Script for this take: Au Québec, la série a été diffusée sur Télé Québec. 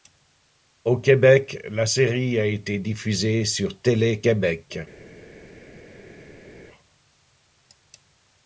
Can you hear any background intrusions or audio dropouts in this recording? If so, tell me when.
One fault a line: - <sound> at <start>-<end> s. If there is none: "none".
none